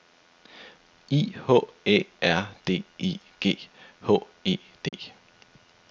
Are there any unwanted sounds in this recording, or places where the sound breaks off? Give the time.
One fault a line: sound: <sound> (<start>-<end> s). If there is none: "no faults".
sound: dropout (4.9-4.9 s)